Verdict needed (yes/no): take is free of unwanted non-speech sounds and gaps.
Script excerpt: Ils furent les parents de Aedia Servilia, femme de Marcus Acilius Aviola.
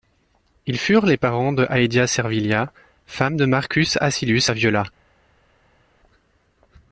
yes